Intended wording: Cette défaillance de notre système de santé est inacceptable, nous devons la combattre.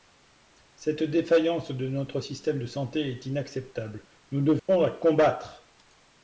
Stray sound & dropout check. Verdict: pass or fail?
fail